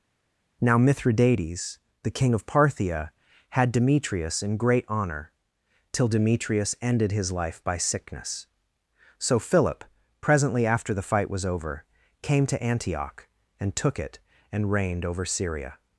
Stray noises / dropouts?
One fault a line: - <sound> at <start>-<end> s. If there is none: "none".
none